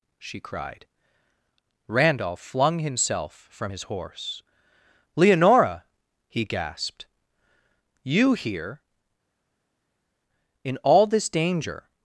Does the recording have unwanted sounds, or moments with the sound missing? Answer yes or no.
no